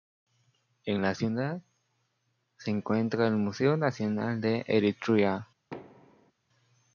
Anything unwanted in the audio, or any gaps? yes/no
yes